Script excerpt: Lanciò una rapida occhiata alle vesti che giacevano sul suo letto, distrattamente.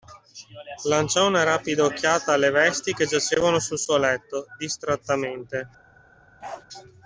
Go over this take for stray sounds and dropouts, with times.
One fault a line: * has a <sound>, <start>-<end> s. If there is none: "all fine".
* has a bark, 6.4-6.7 s